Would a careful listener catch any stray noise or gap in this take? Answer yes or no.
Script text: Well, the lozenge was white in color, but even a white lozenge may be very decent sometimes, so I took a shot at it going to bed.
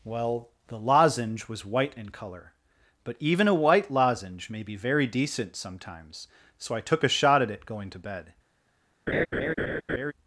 yes